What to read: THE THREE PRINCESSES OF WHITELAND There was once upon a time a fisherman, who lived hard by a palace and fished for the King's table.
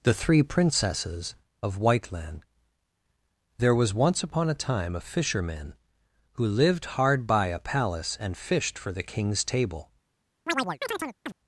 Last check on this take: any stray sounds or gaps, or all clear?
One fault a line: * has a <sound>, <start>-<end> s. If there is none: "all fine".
* has a chirp, 10.5-11.3 s